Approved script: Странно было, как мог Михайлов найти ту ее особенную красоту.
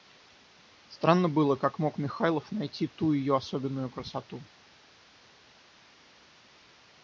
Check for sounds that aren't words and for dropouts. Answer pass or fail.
pass